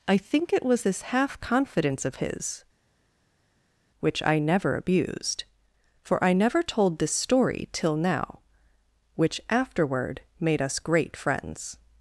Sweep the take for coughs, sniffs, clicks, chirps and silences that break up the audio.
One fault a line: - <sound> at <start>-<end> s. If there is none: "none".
none